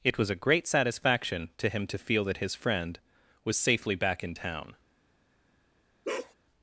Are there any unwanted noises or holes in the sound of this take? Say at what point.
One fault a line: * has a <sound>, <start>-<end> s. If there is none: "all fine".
* has a bark, 6.0-6.3 s